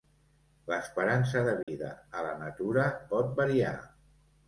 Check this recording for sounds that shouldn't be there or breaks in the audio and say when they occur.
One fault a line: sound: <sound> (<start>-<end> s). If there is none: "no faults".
sound: dropout (1.6-1.7 s)